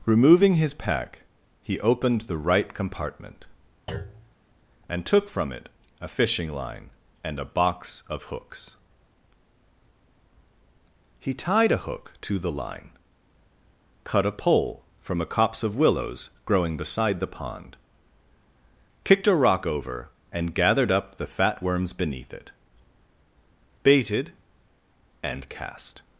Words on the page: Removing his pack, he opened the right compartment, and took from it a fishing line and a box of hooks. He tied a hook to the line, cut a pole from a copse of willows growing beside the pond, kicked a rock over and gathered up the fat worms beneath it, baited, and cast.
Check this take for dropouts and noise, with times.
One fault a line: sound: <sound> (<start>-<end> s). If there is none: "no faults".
sound: thud (3.9-4.4 s)